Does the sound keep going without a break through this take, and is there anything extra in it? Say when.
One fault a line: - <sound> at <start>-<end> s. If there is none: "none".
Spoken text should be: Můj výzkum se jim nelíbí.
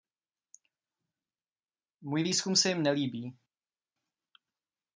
none